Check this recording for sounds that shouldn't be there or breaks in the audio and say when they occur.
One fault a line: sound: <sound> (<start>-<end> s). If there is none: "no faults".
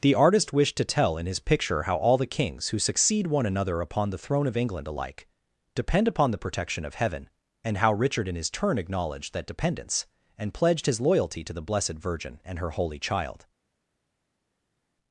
no faults